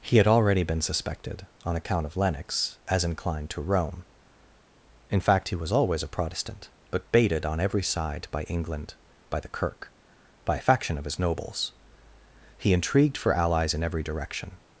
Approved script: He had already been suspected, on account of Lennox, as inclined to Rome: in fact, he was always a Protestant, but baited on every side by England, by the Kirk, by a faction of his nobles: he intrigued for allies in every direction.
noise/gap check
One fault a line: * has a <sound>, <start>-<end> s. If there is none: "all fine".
all fine